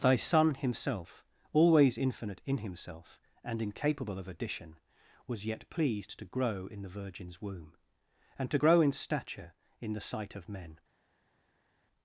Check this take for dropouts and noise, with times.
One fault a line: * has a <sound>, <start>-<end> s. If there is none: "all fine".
all fine